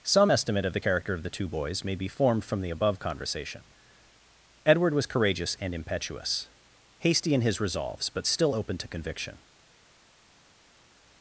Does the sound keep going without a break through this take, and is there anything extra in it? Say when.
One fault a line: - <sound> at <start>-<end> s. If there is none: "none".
none